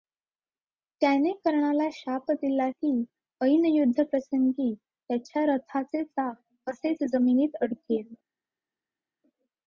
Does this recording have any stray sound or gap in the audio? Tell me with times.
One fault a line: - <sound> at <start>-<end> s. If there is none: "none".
none